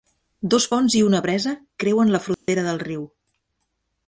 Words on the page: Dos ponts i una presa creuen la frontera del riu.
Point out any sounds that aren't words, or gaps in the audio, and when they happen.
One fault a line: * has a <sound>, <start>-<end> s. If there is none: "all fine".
* has a dropout, 2.3-2.5 s